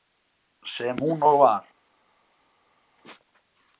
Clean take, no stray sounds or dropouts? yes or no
yes